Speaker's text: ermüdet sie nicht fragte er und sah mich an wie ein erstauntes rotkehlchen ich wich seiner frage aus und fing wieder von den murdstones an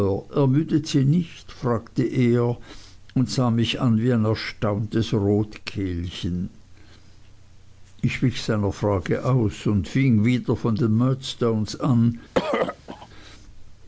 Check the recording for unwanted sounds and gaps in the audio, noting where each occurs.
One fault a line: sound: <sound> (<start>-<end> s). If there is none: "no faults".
sound: throat clearing (12.3-13.1 s)